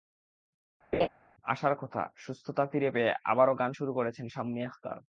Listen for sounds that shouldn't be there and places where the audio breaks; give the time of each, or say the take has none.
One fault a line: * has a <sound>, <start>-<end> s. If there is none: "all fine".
* has a laugh, 0.9-1.1 s